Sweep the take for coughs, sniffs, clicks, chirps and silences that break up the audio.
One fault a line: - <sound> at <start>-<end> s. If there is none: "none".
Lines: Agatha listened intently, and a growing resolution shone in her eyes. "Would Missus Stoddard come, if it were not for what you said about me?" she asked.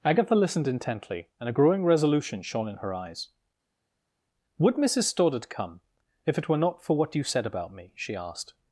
none